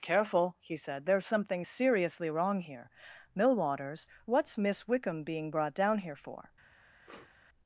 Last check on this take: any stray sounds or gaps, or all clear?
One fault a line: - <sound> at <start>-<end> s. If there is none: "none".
- sniff at 7.0-7.3 s